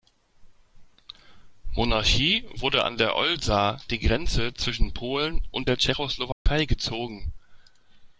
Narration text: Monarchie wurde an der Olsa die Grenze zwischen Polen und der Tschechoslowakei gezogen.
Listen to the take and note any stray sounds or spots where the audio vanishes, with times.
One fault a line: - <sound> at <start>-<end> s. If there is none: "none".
- dropout at 6.3-6.5 s